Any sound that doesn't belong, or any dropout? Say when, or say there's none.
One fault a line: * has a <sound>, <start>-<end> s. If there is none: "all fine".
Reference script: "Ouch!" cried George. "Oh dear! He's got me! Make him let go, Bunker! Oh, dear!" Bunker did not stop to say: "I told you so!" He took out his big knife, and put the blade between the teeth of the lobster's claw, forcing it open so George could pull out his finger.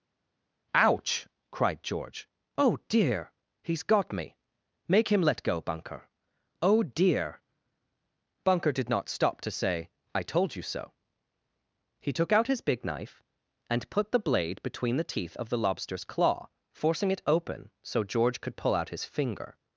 all fine